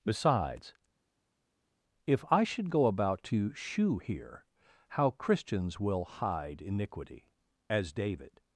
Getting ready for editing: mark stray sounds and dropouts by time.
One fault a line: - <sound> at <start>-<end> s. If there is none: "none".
none